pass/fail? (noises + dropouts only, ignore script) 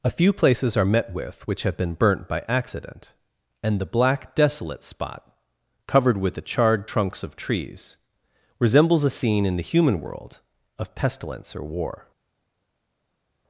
pass